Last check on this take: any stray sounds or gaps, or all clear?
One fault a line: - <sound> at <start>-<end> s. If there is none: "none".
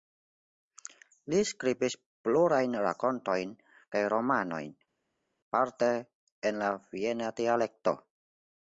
none